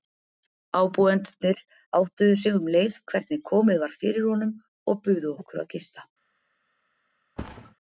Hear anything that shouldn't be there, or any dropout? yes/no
yes